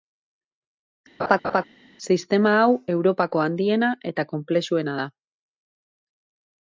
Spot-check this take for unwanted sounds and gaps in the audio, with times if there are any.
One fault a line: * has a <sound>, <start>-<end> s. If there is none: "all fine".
* has a laugh, 1.2-1.6 s